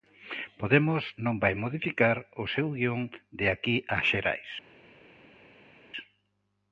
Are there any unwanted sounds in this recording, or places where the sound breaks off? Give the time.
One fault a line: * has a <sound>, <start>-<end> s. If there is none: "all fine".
all fine